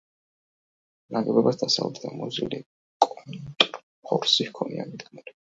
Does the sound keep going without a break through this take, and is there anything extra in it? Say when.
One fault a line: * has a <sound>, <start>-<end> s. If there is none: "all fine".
all fine